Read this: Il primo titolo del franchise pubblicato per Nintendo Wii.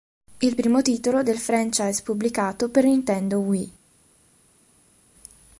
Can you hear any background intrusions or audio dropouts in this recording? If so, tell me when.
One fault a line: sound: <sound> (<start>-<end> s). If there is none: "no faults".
no faults